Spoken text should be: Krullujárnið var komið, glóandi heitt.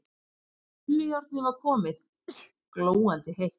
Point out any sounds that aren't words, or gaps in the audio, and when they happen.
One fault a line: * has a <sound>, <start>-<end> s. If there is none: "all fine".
* has a sneeze, 2.3-2.5 s